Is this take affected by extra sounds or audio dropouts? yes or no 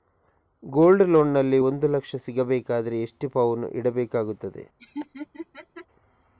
yes